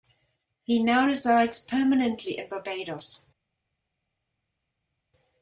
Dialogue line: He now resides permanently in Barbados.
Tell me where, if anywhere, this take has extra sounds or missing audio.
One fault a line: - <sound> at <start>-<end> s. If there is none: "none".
none